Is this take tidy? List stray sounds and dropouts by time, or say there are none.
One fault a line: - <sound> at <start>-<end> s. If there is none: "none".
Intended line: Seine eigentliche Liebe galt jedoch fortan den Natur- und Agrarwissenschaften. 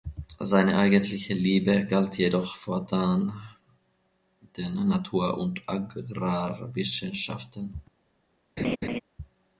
- laugh at 8.6-9.0 s